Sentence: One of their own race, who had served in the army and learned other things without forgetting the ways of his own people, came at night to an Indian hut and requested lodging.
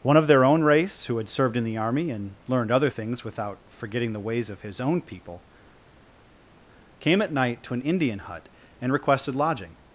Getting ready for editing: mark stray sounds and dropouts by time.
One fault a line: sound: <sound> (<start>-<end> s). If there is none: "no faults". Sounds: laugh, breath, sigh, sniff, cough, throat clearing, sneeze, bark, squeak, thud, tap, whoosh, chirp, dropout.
no faults